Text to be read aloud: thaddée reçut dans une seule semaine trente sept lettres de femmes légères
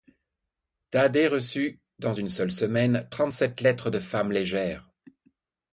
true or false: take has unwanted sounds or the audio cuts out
false